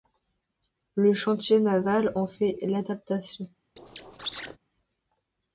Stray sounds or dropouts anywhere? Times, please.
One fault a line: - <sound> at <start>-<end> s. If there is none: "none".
- squeak at 3.8-4.6 s